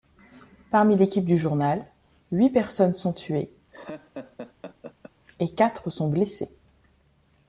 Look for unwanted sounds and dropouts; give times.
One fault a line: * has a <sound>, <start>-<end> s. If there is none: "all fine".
* has a laugh, 3.7-5.1 s